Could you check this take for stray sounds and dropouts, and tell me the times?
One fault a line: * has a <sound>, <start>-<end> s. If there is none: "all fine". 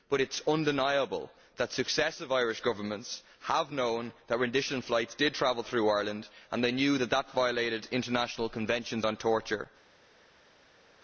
all fine